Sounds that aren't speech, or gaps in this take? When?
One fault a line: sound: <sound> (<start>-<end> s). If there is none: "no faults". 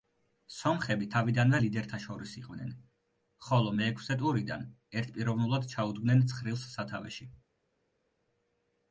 no faults